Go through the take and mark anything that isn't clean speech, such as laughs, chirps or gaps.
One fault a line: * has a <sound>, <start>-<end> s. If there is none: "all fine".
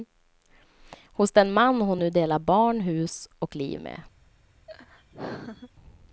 * has a laugh, 4.7-5.7 s